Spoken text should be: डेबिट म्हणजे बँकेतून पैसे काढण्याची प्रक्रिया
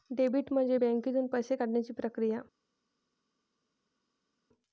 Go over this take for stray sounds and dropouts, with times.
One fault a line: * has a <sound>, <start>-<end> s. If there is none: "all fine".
all fine